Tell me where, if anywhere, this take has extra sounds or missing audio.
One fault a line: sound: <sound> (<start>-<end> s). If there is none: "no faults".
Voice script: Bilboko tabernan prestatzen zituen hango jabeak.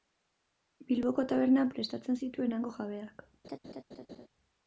sound: laugh (3.4-4.3 s)